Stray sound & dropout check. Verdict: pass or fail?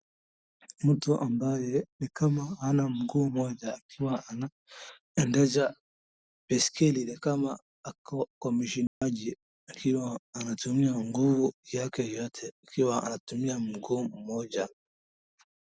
fail